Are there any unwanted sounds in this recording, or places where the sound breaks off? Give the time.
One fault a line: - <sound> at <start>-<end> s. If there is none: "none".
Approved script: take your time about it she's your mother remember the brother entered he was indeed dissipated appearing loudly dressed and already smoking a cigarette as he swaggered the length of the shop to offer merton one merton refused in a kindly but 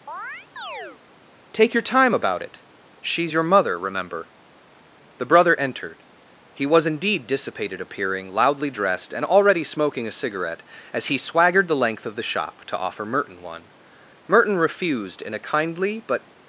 - chirp at 0.1-1.0 s